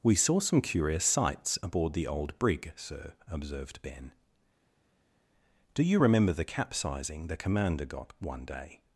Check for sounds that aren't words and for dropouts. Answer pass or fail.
pass